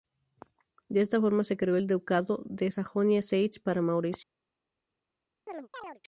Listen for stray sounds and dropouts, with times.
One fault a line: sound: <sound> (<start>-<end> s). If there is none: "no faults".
sound: chirp (5.5-6.0 s)